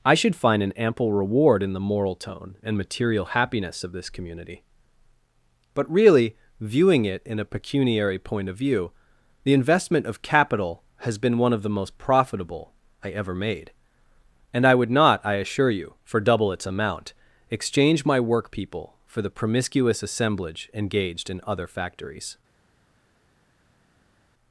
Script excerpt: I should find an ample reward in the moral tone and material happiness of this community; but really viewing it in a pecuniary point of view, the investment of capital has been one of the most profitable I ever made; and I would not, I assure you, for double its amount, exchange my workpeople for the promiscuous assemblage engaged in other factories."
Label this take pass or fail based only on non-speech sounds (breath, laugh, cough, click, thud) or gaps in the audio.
pass